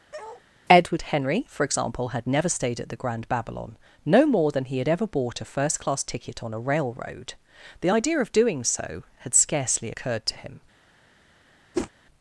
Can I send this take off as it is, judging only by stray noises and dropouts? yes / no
no